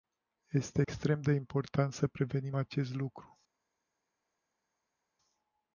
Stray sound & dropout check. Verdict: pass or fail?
pass